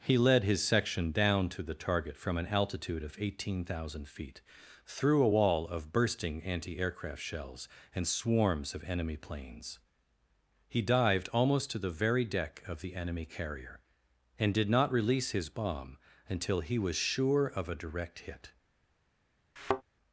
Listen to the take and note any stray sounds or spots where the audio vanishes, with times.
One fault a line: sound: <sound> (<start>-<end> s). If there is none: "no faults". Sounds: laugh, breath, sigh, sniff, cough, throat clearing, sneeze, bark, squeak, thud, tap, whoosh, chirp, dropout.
sound: thud (19.6-19.8 s)